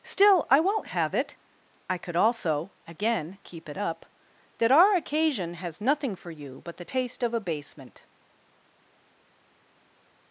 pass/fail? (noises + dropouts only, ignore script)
pass